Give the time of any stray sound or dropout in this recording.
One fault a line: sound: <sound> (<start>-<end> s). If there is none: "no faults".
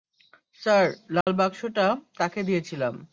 sound: dropout (1.2-1.3 s)